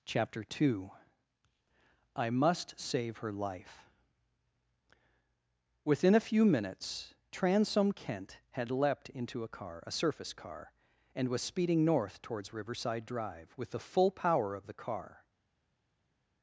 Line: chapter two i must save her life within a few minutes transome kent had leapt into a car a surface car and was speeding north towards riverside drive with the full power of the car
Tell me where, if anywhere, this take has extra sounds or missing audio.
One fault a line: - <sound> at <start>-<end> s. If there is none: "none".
none